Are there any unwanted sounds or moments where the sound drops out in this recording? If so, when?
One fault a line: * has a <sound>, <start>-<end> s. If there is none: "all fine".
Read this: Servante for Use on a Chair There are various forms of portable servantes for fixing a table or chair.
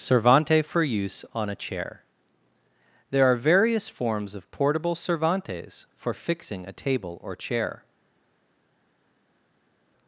all fine